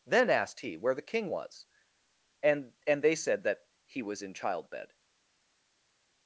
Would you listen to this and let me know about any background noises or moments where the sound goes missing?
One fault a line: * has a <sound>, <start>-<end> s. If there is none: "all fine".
all fine